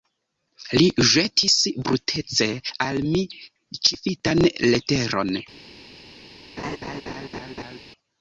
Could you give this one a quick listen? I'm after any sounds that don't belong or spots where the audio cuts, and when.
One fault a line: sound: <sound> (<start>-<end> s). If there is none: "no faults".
sound: laugh (6.6-7.8 s)